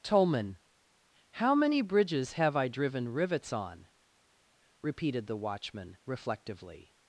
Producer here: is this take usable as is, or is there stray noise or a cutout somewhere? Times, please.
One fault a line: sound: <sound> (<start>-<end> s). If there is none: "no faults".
no faults